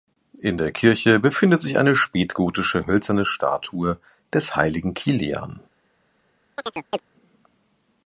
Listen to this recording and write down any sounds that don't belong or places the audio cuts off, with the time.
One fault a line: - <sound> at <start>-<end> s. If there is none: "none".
- chirp at 6.6-7.0 s